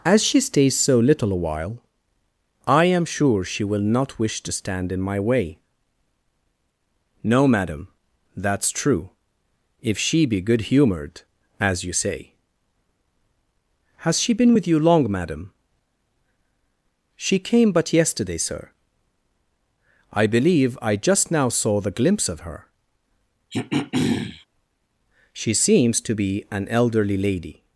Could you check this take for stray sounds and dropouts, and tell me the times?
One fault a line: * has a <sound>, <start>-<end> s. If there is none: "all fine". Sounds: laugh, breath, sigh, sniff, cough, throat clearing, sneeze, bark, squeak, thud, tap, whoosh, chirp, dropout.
* has a throat clearing, 23.5-24.5 s